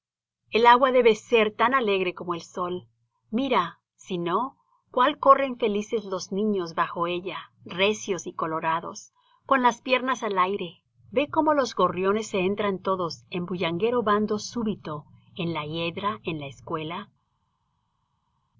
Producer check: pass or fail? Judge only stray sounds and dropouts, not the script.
pass